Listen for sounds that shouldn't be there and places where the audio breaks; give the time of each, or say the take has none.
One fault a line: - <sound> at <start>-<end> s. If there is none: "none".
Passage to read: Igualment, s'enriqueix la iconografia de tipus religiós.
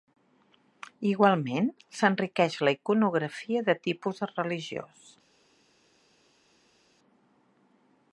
none